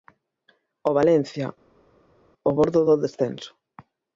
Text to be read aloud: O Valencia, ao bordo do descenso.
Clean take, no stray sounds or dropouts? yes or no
yes